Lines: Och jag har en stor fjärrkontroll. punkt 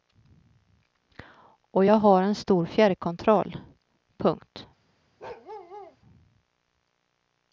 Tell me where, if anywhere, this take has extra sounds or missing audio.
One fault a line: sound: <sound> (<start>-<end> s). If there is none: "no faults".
sound: bark (5.2-6.0 s)